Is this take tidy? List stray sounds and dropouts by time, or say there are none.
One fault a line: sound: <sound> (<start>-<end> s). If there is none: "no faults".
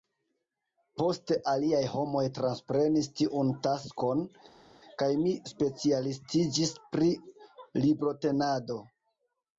no faults